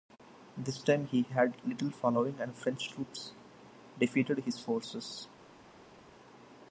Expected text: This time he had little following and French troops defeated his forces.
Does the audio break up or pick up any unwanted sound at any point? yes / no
no